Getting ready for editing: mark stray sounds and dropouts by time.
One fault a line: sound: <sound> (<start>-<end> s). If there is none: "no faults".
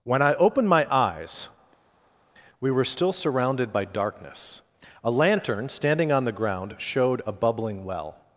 no faults